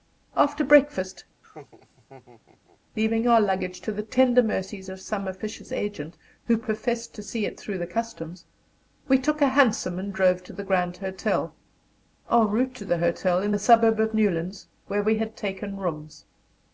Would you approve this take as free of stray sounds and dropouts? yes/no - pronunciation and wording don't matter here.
no